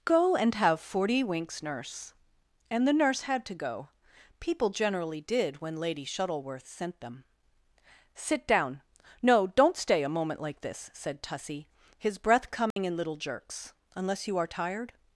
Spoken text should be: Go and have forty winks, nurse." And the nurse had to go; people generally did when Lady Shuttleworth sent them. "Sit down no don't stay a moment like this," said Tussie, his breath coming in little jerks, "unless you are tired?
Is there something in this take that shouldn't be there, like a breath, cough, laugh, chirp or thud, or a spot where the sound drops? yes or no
yes